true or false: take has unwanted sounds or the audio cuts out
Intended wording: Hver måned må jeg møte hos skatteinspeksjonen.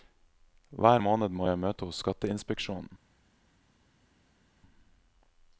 false